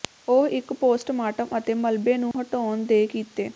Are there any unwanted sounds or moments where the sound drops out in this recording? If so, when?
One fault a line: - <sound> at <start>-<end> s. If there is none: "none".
- dropout at 2.3-2.3 s